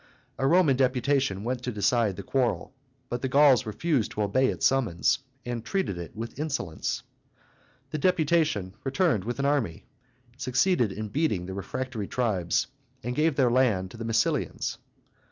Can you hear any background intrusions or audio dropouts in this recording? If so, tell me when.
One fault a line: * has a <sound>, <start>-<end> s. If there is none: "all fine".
all fine